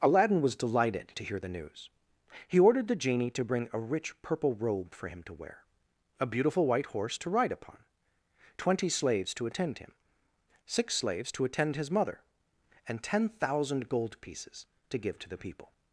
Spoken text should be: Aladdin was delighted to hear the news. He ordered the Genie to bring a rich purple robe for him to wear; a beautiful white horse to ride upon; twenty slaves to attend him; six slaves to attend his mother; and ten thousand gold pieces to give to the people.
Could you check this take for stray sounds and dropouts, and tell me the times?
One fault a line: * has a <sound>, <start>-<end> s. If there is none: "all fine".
all fine